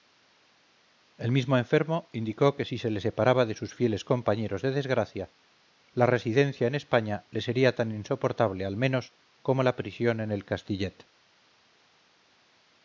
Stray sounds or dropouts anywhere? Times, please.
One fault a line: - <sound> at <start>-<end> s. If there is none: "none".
none